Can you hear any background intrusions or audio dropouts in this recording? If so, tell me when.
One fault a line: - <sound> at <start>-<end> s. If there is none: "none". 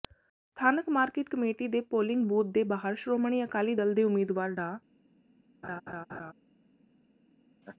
- laugh at 5.6-6.3 s
- laugh at 7.6-7.8 s